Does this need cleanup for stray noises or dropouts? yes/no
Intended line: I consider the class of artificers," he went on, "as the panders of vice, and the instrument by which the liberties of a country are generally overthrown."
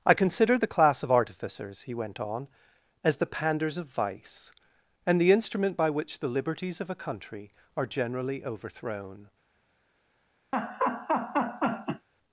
yes